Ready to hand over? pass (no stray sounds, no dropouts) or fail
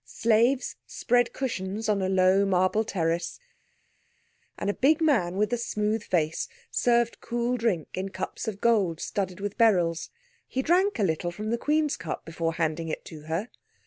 pass